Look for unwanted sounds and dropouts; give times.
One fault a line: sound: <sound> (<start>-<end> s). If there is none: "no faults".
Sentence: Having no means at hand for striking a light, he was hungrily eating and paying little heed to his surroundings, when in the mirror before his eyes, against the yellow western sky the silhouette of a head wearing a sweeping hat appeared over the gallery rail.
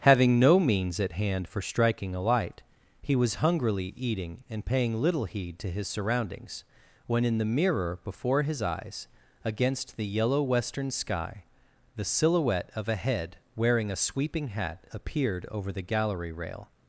no faults